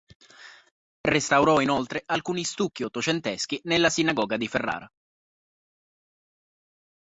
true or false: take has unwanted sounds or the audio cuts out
false